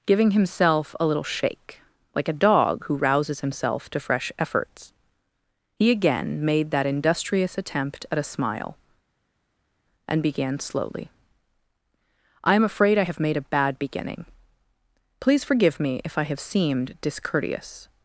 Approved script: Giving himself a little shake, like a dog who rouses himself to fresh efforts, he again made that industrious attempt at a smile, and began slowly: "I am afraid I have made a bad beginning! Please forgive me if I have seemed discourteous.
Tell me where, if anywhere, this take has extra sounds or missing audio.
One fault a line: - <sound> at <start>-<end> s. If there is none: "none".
none